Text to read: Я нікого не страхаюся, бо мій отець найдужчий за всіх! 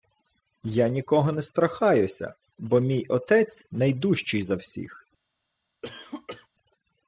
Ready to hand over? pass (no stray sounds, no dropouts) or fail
fail